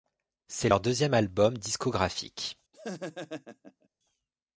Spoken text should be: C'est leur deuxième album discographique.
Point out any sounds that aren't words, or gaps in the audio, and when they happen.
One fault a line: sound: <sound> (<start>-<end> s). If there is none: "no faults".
sound: laugh (2.7-3.9 s)